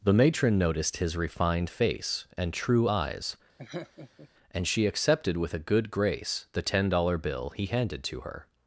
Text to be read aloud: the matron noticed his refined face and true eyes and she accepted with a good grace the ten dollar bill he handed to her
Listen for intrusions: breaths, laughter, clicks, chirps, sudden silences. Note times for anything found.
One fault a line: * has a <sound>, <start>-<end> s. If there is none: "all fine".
* has a laugh, 3.6-4.3 s